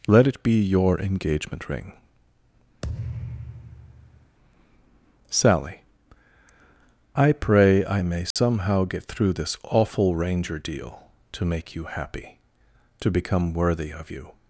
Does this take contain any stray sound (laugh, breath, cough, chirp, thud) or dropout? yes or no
yes